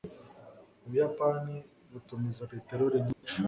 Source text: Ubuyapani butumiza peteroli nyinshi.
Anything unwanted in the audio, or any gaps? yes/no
yes